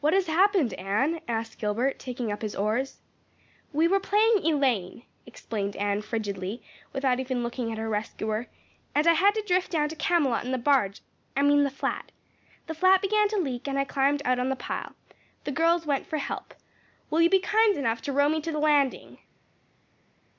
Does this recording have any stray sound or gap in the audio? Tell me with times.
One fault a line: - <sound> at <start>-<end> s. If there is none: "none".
none